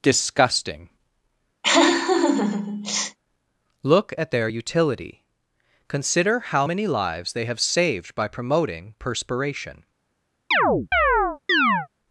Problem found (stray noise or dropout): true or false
true